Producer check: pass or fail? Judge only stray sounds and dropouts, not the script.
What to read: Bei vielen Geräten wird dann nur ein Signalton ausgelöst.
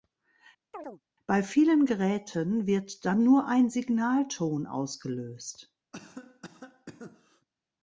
fail